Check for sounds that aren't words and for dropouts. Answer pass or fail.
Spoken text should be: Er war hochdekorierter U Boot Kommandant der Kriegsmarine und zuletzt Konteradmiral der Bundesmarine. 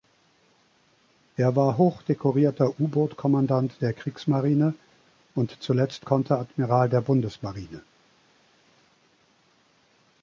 pass